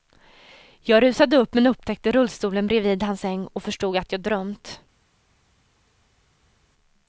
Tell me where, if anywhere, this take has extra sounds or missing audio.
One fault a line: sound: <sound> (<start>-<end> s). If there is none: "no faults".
no faults